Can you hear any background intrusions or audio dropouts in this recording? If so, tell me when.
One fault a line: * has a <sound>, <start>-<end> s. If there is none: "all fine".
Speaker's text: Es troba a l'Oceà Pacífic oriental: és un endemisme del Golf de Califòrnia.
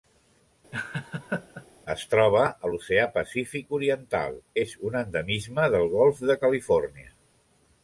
* has a laugh, 0.7-1.7 s